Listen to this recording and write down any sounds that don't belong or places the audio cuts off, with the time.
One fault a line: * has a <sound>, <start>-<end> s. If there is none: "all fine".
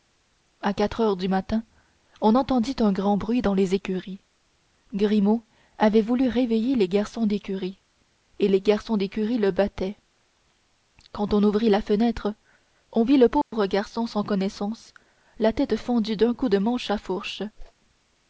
* has a dropout, 13.4-13.5 s
* has a whoosh, 17.6-17.7 s